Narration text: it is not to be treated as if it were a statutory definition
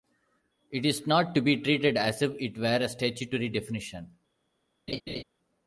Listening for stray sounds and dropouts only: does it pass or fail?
fail